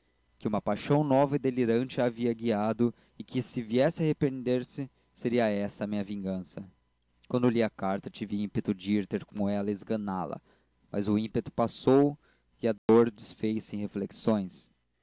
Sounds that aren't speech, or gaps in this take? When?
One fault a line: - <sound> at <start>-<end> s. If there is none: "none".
- dropout at 12.8-12.9 s